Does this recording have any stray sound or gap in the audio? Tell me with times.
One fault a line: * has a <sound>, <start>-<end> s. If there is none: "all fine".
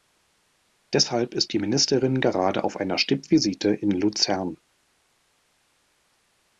all fine